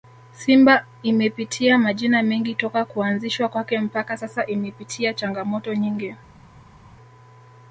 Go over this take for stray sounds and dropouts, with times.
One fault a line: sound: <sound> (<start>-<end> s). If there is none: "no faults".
no faults